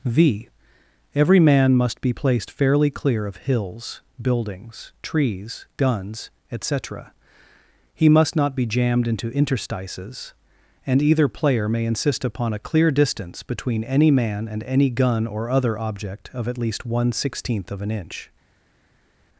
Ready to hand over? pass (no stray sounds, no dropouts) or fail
pass